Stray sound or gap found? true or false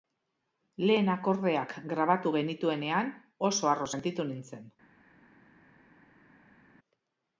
false